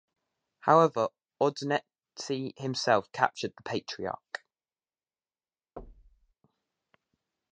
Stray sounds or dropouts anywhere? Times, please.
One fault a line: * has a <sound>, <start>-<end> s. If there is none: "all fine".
* has a thud, 5.8-6.3 s